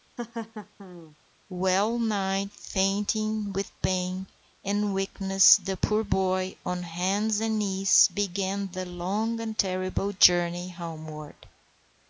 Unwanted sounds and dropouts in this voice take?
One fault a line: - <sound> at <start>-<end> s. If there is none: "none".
- laugh at 0.2-1.2 s